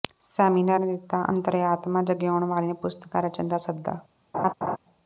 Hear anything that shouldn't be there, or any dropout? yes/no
yes